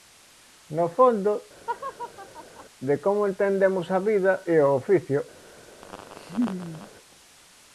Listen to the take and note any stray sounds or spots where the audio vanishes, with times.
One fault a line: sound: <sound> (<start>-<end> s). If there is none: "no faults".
sound: laugh (1.7-2.7 s)
sound: laugh (5.8-6.9 s)